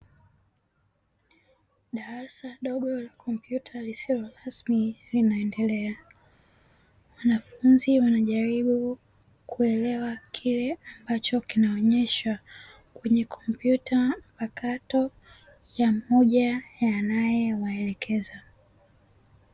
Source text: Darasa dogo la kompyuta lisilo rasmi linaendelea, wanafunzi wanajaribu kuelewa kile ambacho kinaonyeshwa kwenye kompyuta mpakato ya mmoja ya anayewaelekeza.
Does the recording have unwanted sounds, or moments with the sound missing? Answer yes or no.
no